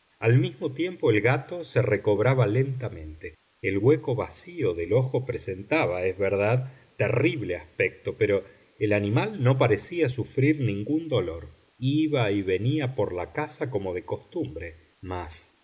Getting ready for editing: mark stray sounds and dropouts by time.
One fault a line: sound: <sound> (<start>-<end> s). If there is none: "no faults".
no faults